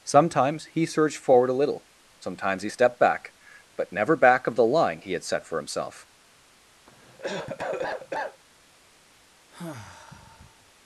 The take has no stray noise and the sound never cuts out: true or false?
false